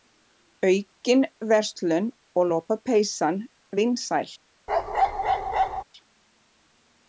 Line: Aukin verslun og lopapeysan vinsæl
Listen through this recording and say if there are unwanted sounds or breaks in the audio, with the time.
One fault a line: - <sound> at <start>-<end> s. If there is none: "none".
- bark at 4.7-5.8 s